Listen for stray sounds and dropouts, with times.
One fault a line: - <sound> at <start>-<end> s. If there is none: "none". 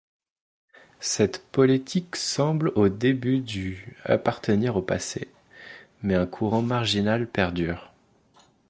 none